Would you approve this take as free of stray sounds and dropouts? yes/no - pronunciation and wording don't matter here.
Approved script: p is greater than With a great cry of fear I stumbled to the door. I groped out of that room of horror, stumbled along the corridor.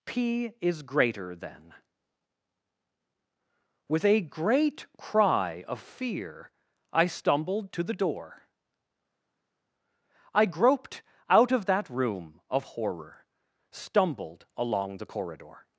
yes